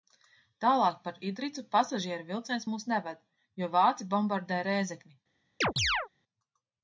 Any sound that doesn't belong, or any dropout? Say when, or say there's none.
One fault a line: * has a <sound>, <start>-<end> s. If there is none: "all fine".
* has a chirp, 5.6-6.1 s